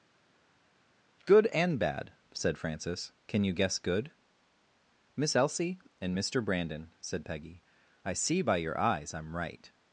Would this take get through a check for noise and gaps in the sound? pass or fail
pass